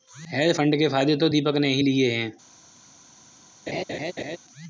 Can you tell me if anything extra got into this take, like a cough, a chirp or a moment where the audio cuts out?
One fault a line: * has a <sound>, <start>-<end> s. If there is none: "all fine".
* has a laugh, 3.7-4.4 s